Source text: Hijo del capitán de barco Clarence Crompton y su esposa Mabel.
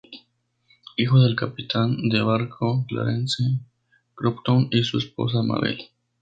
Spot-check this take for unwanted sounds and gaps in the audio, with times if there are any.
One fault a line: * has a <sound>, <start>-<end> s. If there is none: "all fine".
all fine